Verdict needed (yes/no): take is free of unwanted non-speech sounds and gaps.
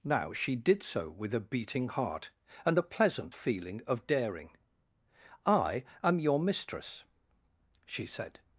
yes